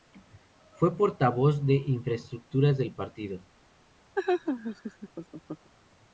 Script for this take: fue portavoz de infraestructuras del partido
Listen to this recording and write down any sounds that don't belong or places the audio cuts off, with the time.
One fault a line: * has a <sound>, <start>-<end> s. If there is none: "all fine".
* has a laugh, 4.1-5.7 s